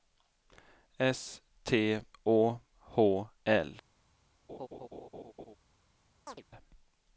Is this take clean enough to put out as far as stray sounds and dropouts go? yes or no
no